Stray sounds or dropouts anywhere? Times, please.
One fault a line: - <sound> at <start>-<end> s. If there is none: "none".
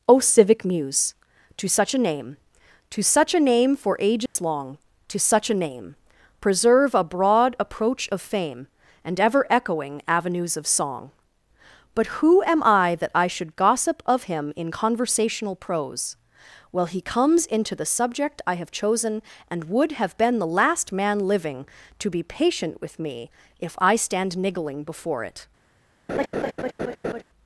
- dropout at 4.3-4.4 s
- laugh at 26.1-27.2 s